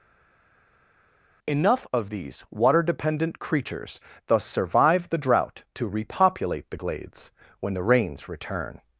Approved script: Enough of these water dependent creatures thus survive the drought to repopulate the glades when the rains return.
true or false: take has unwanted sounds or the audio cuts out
false